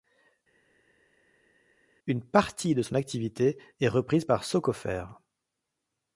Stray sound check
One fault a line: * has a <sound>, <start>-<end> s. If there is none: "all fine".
all fine